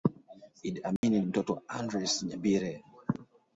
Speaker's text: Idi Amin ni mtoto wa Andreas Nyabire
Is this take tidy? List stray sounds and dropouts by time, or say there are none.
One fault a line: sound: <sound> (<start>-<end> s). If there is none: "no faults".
sound: dropout (1.0-1.0 s)